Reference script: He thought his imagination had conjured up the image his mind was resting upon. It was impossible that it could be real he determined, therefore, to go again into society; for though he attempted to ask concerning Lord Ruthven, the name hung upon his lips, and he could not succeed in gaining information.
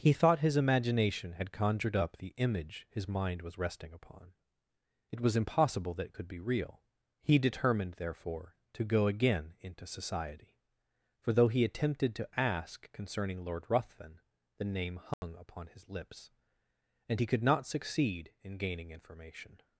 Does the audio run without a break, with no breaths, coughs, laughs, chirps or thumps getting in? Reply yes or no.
no